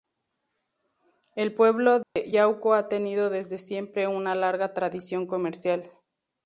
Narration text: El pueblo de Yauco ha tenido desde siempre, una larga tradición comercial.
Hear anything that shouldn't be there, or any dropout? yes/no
yes